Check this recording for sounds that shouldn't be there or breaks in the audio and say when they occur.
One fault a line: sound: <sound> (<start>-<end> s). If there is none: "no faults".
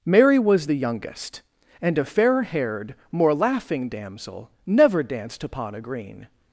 no faults